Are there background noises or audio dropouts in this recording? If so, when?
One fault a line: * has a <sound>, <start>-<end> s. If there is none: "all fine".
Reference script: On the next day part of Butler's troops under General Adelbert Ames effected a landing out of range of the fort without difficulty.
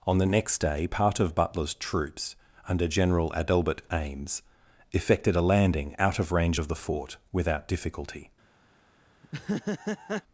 * has a laugh, 9.2-10.2 s